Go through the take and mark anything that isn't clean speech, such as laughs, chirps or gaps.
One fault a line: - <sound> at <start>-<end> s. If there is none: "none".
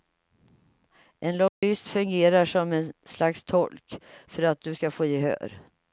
- dropout at 1.5-1.6 s